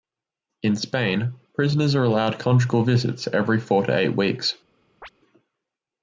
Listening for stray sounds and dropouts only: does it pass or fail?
fail